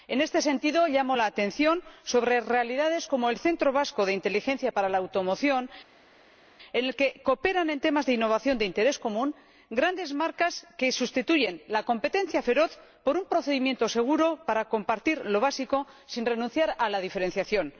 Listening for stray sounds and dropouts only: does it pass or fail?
pass